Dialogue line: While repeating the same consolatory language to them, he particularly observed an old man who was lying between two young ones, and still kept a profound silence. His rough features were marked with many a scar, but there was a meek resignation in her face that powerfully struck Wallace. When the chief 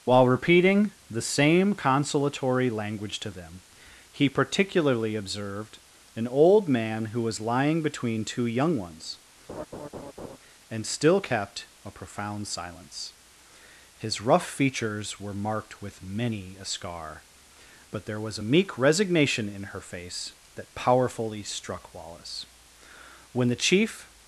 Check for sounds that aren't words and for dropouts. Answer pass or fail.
fail